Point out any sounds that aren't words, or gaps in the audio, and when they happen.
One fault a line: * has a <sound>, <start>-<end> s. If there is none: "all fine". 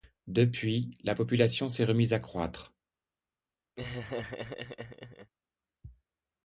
* has a laugh, 3.8-5.3 s